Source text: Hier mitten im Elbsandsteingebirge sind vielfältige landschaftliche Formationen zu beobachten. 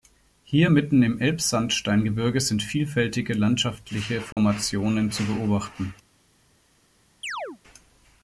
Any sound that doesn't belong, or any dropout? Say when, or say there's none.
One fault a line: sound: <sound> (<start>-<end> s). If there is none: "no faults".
sound: dropout (4.3-4.4 s)
sound: chirp (7.2-7.6 s)